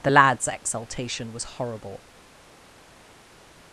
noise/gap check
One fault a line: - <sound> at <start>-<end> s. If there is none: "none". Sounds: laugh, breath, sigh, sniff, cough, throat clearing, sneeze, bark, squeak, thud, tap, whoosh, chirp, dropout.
none